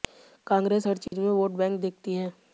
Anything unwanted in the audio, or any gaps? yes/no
yes